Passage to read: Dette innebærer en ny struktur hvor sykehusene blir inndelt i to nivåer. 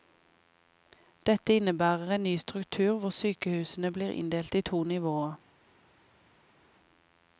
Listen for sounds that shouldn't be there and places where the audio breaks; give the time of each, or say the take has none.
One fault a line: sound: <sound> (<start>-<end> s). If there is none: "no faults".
no faults